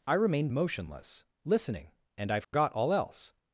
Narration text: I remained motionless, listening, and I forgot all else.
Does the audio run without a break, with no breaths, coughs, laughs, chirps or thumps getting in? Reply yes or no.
no